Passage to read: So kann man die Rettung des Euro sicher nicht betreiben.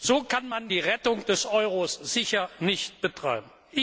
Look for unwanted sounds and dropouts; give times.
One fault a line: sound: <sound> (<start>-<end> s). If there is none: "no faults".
no faults